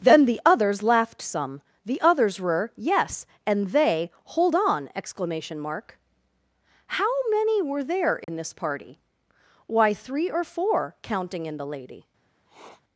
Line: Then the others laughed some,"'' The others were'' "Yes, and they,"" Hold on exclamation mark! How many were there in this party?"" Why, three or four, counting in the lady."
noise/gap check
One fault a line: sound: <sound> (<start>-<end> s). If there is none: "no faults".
sound: dropout (8.2-8.3 s)
sound: sniff (12.5-12.8 s)